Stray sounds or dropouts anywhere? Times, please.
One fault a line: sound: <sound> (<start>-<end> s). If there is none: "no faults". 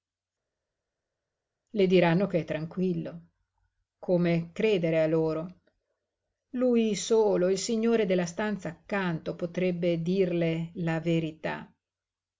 no faults